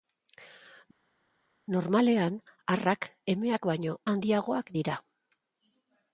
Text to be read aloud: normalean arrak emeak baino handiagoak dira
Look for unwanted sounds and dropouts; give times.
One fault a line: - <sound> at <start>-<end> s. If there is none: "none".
none